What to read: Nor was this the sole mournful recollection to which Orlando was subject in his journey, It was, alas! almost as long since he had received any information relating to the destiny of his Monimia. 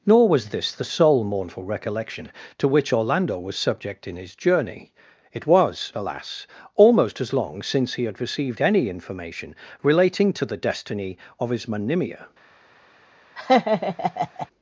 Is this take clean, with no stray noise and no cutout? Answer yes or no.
no